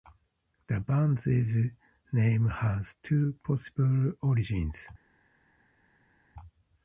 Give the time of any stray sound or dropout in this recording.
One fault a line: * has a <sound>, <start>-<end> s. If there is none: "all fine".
all fine